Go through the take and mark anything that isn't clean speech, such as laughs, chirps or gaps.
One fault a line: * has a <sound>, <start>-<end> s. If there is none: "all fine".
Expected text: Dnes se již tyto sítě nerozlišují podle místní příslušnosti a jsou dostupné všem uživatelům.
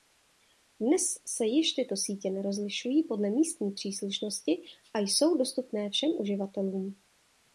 all fine